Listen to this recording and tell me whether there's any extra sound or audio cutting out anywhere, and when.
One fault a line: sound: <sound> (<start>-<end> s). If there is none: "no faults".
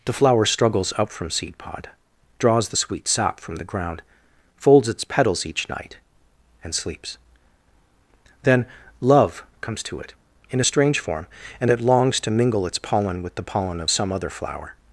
no faults